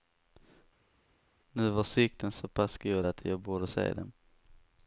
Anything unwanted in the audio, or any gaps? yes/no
no